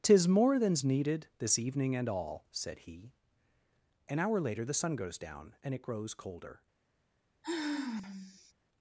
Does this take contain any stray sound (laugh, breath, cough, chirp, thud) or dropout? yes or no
yes